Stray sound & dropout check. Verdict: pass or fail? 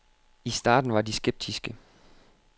pass